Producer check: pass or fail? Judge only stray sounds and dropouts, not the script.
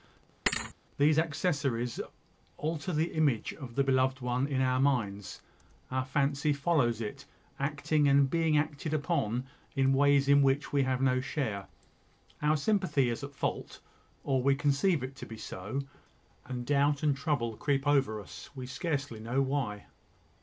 fail